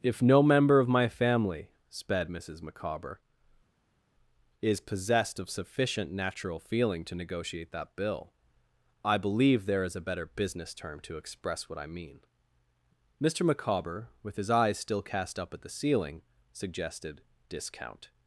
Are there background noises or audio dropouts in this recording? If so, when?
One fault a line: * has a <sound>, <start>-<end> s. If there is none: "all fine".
all fine